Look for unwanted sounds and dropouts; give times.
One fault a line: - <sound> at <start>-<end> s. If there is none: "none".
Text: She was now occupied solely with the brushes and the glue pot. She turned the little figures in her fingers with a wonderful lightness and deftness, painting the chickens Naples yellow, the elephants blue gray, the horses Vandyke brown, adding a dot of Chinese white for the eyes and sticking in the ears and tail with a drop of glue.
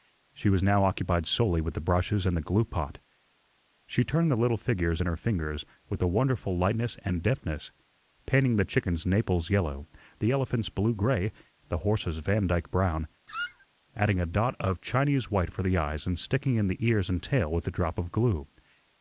- squeak at 13.3-13.7 s